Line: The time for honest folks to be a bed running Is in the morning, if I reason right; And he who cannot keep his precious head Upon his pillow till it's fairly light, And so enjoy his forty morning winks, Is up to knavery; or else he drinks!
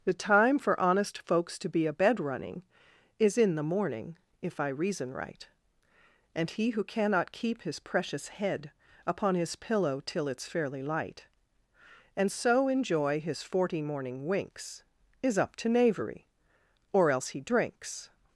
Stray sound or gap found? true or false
false